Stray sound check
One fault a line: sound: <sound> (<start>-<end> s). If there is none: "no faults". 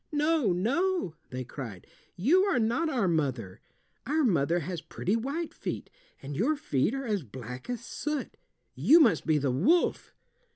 no faults